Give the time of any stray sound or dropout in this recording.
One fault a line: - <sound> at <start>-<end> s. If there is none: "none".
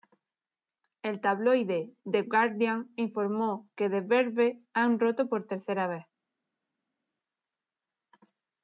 none